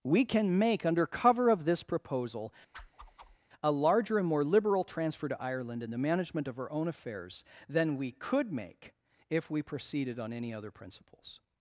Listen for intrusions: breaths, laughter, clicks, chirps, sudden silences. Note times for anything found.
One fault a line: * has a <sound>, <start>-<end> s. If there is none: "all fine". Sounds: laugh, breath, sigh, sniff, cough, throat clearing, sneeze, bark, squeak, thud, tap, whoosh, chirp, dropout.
* has a whoosh, 2.7-3.4 s